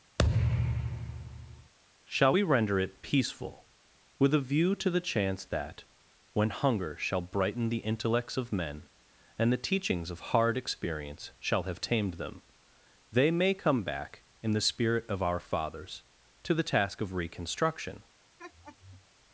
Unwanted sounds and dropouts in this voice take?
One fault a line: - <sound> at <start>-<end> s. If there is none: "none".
- thud at 0.2-1.7 s
- laugh at 18.4-19.1 s